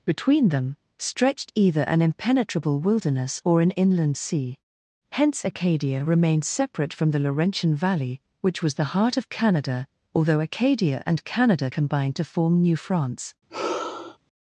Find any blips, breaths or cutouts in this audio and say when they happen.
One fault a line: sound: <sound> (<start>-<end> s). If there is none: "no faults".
sound: sigh (13.5-14.2 s)